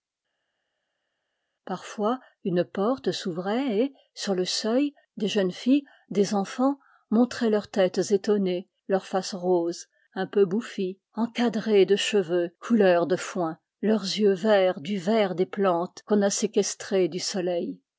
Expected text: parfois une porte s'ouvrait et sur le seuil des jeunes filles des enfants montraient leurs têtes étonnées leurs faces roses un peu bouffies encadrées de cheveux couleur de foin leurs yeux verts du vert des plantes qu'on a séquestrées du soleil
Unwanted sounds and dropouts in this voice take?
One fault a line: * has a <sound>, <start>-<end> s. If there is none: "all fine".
all fine